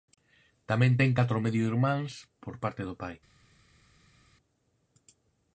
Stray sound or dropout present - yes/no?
no